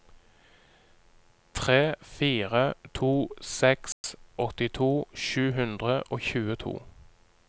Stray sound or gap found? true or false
true